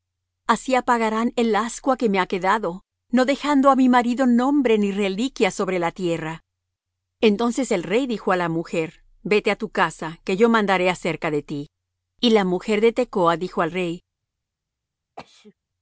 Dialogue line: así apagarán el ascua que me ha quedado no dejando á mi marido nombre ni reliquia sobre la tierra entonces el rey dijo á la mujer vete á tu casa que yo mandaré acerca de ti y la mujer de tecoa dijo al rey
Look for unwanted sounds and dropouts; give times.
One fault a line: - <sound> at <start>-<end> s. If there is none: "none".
- sneeze at 15.2-15.5 s